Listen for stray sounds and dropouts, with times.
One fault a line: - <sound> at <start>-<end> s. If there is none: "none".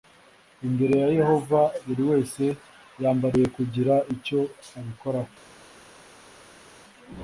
none